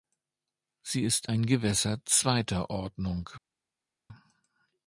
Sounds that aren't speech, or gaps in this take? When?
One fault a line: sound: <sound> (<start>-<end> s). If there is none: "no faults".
no faults